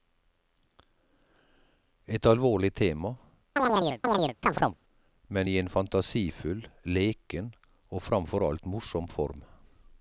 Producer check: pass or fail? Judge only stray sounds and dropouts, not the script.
fail